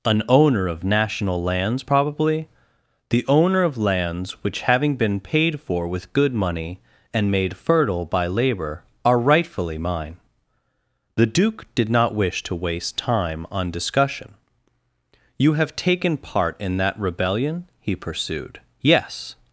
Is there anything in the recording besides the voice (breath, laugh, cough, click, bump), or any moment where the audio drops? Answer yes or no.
no